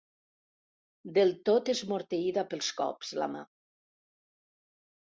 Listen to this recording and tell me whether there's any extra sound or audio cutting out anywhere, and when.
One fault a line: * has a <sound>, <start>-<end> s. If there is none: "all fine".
all fine